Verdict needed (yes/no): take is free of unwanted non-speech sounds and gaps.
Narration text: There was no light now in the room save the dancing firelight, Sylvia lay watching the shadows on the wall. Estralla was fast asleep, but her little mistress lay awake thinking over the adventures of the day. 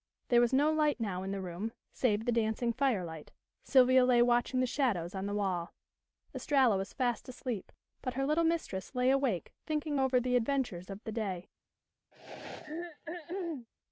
no